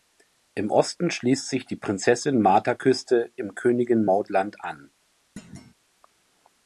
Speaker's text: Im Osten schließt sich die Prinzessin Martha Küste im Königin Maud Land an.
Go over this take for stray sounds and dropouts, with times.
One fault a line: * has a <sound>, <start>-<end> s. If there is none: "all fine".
* has a thud, 5.4-5.7 s